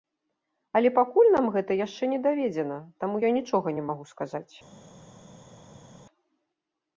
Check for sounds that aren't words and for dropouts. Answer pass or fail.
pass